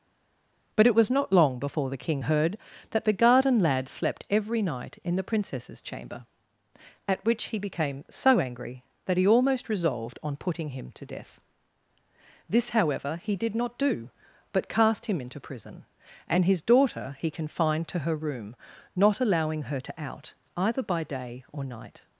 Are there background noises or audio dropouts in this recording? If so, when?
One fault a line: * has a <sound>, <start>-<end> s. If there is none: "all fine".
all fine